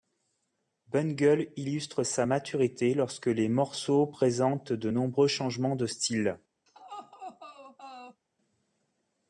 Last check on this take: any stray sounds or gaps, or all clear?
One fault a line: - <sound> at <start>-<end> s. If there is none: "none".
- laugh at 6.7-8.2 s